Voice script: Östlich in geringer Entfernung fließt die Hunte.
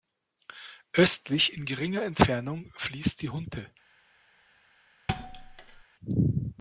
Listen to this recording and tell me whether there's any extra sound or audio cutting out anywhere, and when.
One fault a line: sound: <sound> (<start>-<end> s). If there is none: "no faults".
sound: thud (5.1-5.8 s)